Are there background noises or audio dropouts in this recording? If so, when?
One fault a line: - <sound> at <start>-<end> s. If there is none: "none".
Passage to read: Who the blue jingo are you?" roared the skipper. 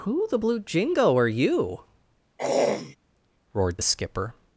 - throat clearing at 2.4-3.0 s